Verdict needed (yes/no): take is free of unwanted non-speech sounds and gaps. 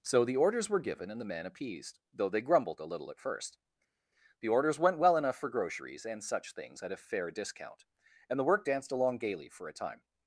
yes